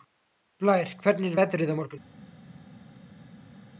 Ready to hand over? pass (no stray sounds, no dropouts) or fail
pass